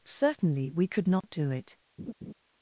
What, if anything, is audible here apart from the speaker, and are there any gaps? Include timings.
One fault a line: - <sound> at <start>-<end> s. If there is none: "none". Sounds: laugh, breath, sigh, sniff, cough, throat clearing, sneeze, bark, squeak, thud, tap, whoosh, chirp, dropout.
- dropout at 1.2-1.2 s
- laugh at 2.0-2.3 s